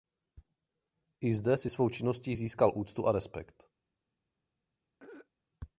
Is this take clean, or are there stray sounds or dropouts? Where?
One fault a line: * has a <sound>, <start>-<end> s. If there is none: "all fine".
* has a throat clearing, 5.0-5.3 s